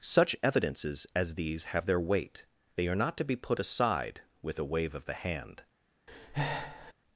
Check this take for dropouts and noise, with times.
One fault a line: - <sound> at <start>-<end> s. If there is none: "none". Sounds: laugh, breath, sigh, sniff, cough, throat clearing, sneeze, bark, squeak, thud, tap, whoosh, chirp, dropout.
- breath at 6.1-6.9 s